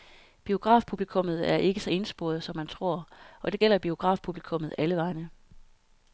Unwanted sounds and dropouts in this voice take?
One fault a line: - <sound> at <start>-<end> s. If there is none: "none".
none